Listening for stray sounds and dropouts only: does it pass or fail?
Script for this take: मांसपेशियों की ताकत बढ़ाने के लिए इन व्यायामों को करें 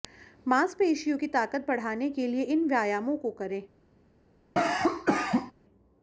fail